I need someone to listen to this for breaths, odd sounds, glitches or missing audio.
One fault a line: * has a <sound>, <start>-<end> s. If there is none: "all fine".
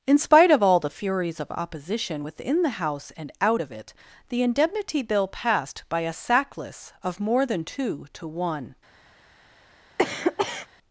* has a cough, 10.0-10.7 s